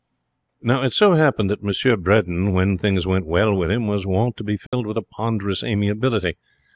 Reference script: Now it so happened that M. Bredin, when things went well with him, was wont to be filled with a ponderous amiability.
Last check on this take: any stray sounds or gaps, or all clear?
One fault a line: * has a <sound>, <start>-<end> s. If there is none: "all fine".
* has a dropout, 4.7-4.7 s